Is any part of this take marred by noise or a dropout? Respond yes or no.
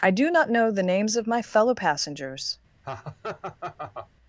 yes